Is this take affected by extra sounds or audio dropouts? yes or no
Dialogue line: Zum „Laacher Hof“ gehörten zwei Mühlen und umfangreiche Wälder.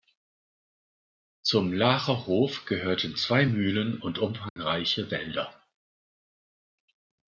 yes